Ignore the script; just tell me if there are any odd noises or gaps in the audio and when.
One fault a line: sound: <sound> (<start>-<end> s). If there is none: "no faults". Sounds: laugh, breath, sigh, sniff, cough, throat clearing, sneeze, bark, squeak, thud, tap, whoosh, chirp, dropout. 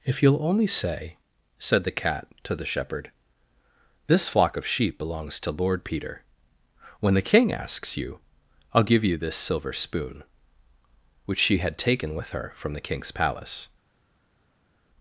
no faults